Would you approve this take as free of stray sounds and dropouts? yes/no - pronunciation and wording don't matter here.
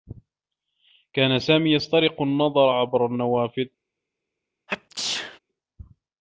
no